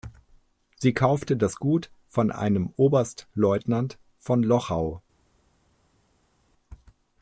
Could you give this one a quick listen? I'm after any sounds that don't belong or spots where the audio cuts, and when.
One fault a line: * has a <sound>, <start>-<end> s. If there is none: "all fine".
all fine